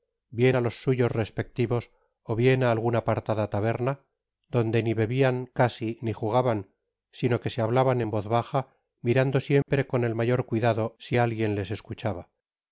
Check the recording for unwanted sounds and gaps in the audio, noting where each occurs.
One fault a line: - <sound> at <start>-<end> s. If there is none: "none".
- dropout at 9.6-9.7 s